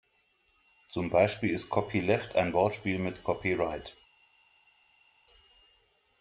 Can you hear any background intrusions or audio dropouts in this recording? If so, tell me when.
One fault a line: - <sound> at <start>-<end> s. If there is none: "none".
none